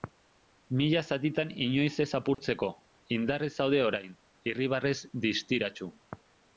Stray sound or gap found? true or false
true